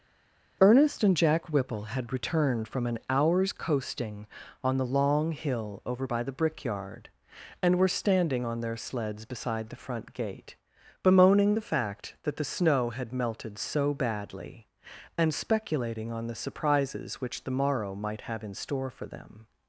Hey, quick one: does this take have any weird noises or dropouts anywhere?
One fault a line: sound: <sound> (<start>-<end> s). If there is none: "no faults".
no faults